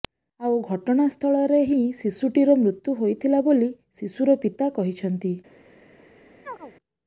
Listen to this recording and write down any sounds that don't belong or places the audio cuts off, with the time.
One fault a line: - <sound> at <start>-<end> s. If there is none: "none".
- chirp at 6.4-6.7 s